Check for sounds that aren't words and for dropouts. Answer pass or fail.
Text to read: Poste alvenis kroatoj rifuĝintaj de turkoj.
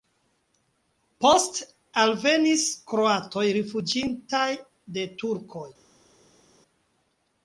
pass